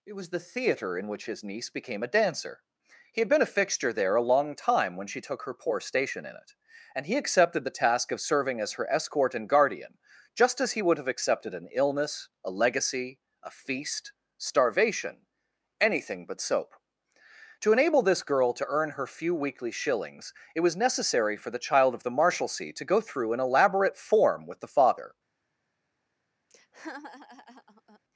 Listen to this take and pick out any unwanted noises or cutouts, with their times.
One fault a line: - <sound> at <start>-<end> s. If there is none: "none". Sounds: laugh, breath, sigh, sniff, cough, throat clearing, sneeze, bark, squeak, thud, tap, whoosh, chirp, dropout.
- laugh at 26.5-28.0 s